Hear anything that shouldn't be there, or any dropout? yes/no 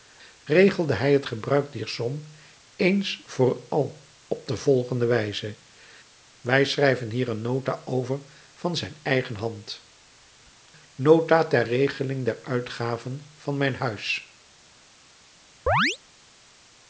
yes